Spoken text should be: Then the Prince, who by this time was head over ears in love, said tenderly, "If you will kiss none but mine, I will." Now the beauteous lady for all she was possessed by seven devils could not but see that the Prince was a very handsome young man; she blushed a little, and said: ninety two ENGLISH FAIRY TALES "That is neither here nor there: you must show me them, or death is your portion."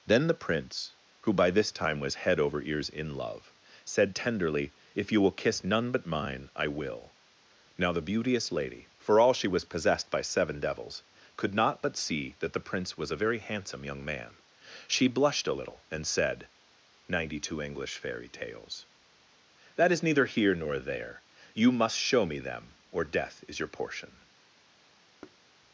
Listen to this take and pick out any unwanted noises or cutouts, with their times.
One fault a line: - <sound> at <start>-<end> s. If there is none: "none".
- thud at 25.2-25.4 s